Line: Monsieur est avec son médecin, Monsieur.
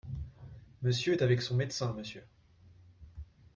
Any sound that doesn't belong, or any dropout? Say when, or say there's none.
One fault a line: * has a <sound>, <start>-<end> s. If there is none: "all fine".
all fine